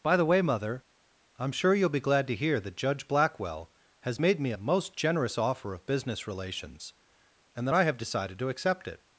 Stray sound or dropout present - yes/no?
no